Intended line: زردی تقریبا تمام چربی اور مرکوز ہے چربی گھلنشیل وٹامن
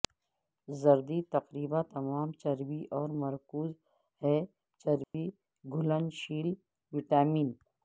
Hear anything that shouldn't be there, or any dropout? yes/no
yes